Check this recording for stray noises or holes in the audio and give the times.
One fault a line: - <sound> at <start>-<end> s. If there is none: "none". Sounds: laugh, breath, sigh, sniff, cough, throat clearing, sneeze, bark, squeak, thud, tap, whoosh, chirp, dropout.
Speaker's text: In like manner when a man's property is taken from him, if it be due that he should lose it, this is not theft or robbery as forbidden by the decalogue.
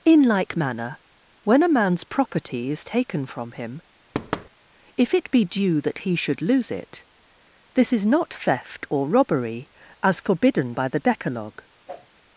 - thud at 4.1-4.5 s
- whoosh at 11.9-12.1 s